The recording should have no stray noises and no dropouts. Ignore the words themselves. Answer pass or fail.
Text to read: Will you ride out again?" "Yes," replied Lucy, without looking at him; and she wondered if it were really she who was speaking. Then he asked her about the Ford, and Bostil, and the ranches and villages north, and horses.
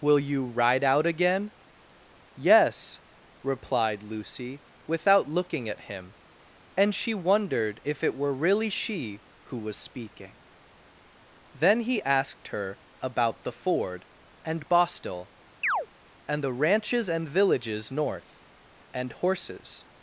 fail